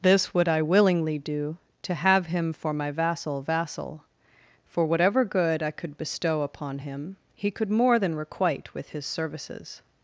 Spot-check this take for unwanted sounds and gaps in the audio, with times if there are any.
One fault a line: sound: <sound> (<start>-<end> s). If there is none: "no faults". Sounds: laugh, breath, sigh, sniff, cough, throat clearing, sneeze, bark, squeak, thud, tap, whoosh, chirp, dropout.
no faults